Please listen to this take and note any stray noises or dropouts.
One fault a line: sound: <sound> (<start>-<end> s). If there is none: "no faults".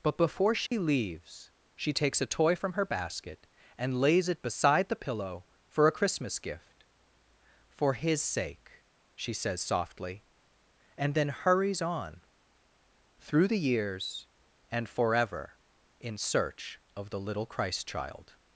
sound: dropout (0.7-0.7 s)